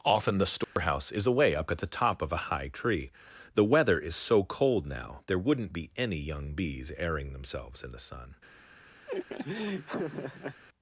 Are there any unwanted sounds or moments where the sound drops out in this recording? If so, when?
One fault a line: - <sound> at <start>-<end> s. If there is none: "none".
- dropout at 0.6-0.8 s
- laugh at 9.1-10.6 s